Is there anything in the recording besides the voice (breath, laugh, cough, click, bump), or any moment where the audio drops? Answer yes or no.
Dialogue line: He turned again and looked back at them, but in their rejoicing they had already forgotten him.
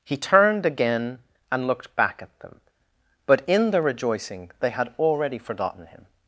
no